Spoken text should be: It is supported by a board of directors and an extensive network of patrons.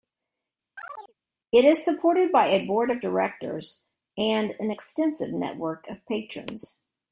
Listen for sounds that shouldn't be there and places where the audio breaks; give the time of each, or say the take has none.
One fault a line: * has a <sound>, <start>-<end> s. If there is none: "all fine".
* has a chirp, 0.8-1.1 s